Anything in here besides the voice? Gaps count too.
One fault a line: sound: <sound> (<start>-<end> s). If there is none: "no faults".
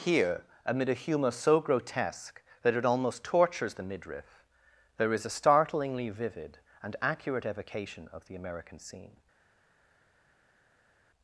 no faults